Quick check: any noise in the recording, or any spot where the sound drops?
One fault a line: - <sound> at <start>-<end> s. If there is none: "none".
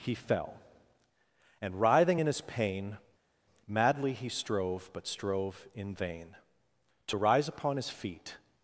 none